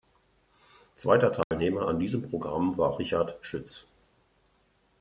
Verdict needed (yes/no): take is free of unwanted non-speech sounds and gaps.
no